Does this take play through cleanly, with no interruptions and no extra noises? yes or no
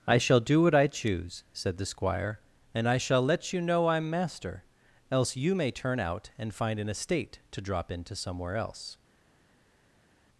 yes